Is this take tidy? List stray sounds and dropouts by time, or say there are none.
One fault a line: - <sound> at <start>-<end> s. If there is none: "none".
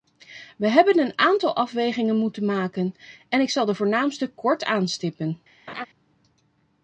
- laugh at 5.7-5.9 s